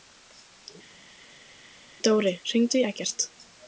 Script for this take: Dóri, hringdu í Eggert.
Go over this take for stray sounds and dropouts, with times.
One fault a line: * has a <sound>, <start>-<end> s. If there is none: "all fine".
all fine